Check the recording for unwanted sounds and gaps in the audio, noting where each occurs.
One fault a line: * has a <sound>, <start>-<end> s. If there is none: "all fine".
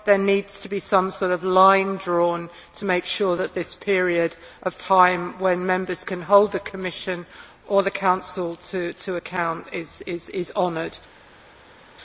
all fine